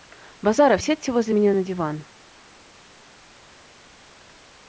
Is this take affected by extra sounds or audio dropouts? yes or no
no